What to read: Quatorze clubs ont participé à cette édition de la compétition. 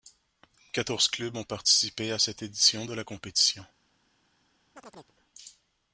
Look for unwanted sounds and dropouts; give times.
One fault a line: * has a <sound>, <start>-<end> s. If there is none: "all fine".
* has a chirp, 4.8-5.2 s